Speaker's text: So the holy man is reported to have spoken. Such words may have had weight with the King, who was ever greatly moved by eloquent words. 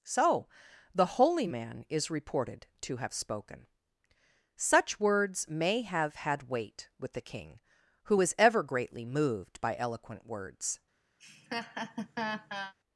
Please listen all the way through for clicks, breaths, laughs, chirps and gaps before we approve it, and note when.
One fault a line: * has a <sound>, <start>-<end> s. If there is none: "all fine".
* has a laugh, 11.2-12.7 s